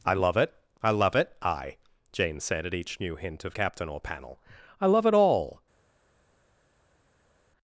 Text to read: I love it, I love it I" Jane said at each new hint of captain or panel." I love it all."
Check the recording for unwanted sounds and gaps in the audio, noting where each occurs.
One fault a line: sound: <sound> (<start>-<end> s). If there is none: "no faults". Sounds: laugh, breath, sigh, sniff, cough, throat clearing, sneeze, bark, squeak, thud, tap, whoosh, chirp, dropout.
no faults